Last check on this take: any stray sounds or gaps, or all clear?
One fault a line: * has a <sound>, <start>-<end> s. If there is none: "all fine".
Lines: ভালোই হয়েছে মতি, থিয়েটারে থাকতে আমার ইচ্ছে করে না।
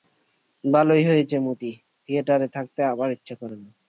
all fine